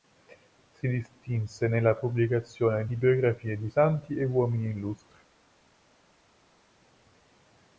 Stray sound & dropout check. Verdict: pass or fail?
pass